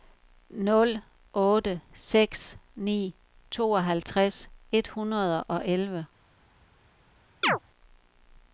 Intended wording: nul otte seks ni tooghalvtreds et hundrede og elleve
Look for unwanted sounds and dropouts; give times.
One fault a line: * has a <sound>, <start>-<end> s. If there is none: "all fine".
* has a chirp, 7.4-7.6 s